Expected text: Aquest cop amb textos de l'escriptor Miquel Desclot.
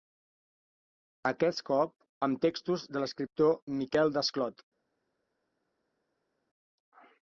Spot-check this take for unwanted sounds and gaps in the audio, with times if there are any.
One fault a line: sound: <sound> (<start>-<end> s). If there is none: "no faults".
no faults